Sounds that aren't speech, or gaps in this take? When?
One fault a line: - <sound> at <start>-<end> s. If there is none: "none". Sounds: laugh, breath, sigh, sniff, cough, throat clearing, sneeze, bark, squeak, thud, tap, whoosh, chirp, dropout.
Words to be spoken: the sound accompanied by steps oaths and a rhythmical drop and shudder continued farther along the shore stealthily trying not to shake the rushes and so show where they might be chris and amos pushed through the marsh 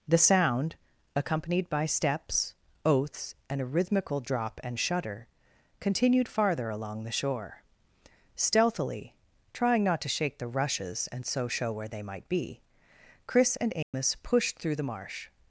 - dropout at 13.8-13.9 s